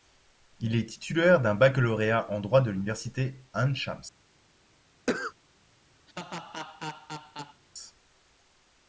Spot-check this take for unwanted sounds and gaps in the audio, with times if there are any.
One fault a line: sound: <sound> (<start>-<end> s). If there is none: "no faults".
sound: cough (5.1-5.3 s)
sound: laugh (6.1-7.6 s)